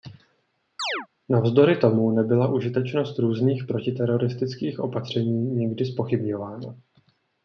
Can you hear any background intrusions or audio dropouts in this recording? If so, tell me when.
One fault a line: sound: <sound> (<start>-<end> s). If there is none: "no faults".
sound: chirp (0.8-1.1 s)